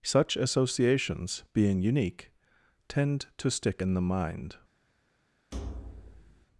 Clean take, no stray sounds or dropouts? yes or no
no